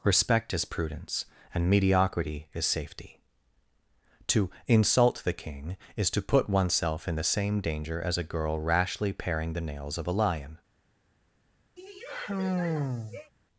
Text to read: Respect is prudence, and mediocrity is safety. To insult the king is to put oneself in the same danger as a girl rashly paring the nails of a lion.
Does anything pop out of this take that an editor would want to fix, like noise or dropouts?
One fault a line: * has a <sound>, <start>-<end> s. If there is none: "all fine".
* has a sigh, 11.8-13.3 s